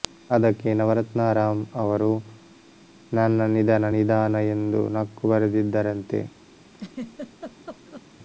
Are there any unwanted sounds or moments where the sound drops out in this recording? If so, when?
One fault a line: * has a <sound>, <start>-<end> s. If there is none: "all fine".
* has a laugh, 6.7-8.1 s